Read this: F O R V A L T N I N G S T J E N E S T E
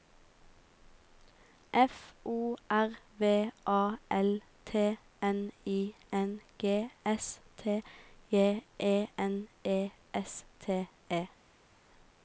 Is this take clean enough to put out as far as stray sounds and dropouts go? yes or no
yes